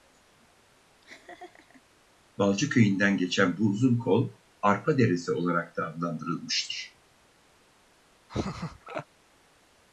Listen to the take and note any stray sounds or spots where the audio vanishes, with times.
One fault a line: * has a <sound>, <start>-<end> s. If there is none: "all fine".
* has a laugh, 1.0-1.8 s
* has a laugh, 8.3-9.1 s